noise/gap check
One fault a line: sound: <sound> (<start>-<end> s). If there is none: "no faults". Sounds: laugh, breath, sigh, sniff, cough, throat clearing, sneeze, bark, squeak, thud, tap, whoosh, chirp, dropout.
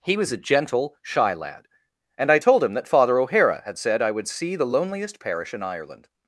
no faults